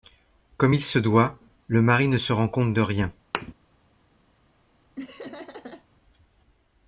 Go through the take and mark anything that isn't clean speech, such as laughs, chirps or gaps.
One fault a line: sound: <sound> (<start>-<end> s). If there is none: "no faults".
sound: thud (3.3-3.5 s)
sound: laugh (5.0-5.9 s)